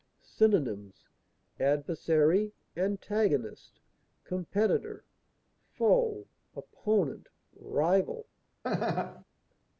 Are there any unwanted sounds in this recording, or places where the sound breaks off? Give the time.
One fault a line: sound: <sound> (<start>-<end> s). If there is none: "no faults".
sound: laugh (8.6-9.2 s)